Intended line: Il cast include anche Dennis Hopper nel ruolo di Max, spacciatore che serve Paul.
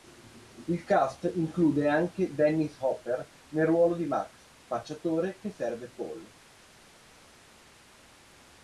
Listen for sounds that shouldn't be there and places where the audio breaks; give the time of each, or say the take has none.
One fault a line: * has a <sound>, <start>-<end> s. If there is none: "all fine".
all fine